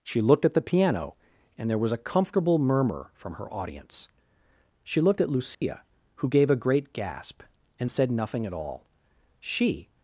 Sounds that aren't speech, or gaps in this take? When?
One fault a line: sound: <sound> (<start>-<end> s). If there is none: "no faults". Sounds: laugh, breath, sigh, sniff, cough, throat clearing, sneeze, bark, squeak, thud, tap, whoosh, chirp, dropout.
sound: dropout (5.5-5.6 s)